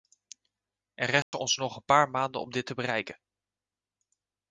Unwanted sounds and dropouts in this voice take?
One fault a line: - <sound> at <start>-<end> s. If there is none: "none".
- dropout at 1.2-1.3 s